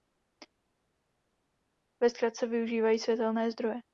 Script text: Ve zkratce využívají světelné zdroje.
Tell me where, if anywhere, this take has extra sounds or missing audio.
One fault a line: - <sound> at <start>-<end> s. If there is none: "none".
none